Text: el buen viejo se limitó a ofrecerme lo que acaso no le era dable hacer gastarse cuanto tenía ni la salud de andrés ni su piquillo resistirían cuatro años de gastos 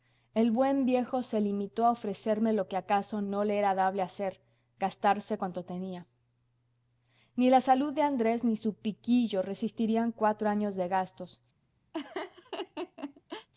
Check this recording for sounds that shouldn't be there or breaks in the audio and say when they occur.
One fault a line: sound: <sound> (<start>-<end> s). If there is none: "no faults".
sound: laugh (11.9-13.5 s)